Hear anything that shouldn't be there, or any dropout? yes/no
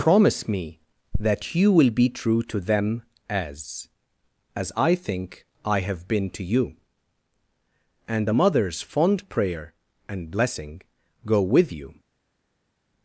no